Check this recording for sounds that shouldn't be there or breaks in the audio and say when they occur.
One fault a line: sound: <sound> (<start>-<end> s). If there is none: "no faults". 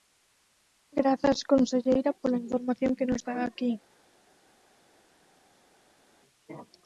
no faults